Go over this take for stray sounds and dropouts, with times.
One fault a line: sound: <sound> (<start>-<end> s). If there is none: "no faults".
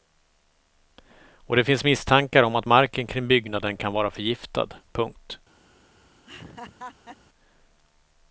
sound: laugh (6.3-7.2 s)